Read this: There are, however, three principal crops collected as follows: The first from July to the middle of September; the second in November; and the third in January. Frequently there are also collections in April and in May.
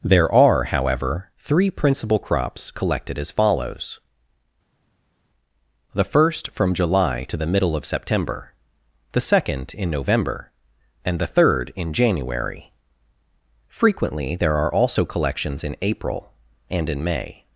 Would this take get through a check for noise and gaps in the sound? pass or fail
pass